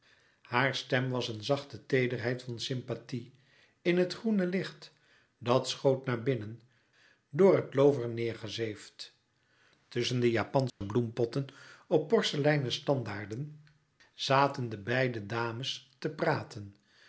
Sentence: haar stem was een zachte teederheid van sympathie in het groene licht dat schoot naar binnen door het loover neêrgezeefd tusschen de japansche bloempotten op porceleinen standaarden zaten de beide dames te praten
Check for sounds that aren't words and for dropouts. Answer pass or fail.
fail